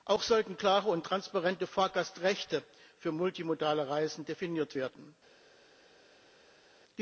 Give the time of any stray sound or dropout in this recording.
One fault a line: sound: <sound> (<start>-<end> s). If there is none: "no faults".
no faults